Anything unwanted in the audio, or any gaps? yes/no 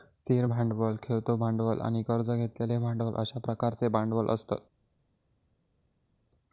no